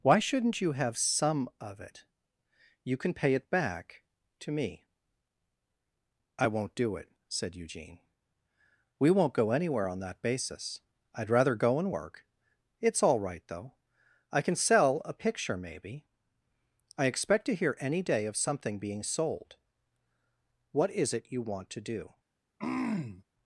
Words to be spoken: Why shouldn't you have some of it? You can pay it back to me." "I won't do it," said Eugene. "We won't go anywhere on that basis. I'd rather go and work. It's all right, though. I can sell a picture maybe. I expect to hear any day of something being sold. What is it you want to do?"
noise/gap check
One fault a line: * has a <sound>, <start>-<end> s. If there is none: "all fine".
* has a throat clearing, 22.6-23.2 s